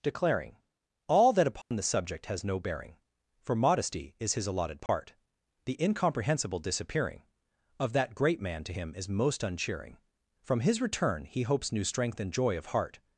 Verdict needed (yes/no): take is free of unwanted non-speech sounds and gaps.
no